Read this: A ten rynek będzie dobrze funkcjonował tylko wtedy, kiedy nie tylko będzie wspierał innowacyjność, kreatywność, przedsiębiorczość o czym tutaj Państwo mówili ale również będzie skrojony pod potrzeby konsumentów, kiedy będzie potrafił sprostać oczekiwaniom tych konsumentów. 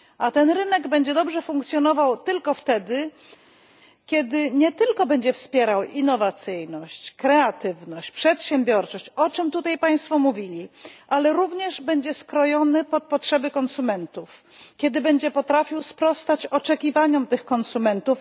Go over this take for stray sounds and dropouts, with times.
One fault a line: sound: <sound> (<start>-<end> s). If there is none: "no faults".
no faults